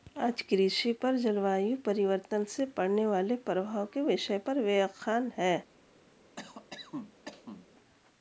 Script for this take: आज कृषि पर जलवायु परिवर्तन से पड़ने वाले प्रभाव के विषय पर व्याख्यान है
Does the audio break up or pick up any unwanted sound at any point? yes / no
yes